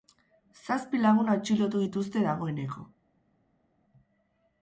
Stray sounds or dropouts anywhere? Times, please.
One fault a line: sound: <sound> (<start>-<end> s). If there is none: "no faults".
no faults